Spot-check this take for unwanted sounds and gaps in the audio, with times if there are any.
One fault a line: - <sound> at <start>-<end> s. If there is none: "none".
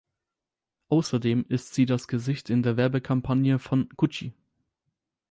none